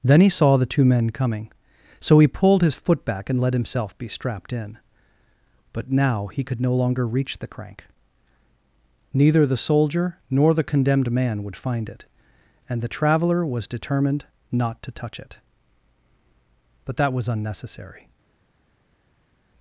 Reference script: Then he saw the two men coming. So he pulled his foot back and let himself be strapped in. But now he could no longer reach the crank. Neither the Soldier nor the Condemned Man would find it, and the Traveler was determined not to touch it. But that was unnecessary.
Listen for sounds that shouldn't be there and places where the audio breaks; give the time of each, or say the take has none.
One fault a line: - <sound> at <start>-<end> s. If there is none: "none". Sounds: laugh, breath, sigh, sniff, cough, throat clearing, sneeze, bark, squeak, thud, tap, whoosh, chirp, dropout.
none